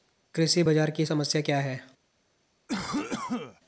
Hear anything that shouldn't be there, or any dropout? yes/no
yes